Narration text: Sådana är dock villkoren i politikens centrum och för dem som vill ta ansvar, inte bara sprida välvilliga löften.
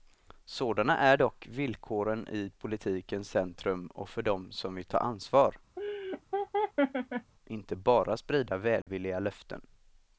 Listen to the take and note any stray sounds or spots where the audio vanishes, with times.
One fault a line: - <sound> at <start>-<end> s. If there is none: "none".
- laugh at 5.8-7.3 s
- dropout at 8.8-8.9 s